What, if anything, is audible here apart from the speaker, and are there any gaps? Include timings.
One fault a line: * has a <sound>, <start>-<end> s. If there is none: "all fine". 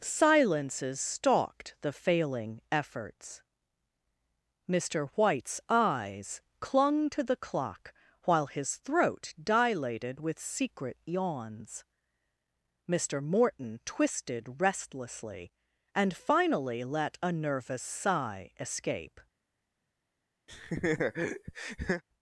* has a laugh, 20.5-22.0 s